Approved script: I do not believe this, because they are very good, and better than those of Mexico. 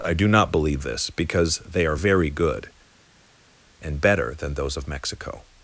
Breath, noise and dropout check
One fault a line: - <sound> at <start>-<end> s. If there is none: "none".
none